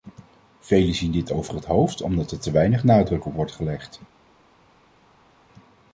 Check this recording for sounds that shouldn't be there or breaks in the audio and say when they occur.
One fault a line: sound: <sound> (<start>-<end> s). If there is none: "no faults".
no faults